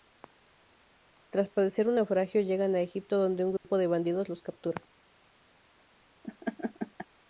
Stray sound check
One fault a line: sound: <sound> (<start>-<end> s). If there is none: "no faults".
sound: dropout (3.6-3.6 s)
sound: laugh (6.2-7.1 s)